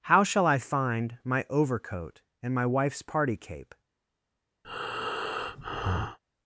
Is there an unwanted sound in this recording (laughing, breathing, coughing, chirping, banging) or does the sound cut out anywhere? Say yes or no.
yes